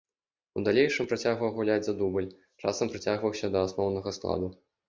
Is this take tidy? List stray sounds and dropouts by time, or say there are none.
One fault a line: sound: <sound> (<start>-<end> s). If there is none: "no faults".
no faults